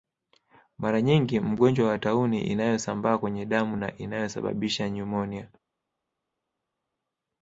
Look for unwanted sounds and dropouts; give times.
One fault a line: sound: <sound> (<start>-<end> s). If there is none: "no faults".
no faults